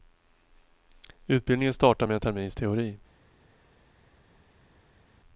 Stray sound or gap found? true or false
false